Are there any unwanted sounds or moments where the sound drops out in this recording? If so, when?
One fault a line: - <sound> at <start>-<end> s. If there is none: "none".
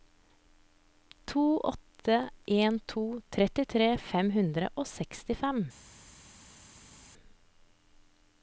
none